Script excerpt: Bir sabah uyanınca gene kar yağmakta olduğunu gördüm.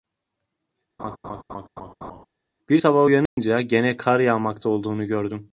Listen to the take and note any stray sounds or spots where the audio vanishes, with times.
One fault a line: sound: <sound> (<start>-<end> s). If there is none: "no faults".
sound: laugh (1.0-2.3 s)
sound: dropout (3.3-3.4 s)